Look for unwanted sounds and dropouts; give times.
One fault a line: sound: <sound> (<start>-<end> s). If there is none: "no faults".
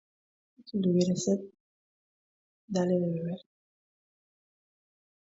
no faults